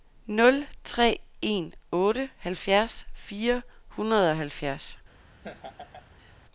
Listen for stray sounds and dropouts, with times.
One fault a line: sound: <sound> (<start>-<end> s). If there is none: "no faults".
sound: laugh (5.4-6.4 s)